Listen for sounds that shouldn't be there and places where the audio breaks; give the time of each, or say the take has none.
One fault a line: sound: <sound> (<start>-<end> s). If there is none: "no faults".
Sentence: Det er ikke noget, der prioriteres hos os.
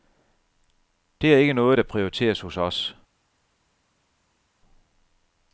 no faults